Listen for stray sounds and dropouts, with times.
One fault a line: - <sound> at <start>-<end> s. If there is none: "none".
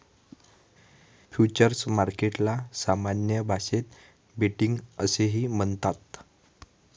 none